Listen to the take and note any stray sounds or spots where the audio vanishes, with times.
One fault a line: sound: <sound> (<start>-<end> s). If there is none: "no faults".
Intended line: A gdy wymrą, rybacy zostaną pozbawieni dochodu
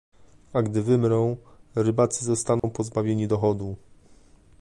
sound: dropout (2.6-2.6 s)